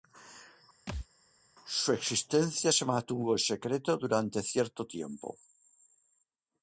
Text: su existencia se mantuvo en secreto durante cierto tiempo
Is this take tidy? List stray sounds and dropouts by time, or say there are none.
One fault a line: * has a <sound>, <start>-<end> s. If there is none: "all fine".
* has a thud, 0.9-1.1 s